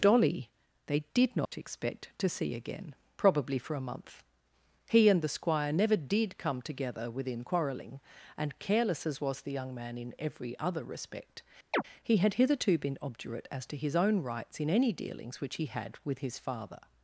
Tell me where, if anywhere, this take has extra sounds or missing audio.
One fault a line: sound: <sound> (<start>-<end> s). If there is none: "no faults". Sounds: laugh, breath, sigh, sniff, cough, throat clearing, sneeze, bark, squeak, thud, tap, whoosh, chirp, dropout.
sound: dropout (1.4-1.5 s)
sound: chirp (11.7-11.8 s)